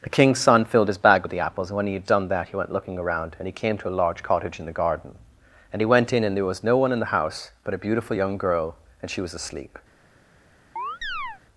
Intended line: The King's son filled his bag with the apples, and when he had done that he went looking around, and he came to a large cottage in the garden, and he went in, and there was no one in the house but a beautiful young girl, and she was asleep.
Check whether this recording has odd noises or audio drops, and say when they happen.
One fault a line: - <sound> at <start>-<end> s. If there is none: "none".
- chirp at 10.8-11.4 s